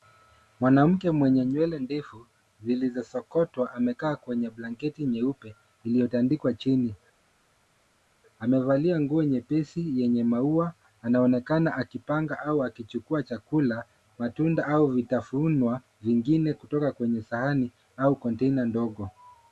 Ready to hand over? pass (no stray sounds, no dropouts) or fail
pass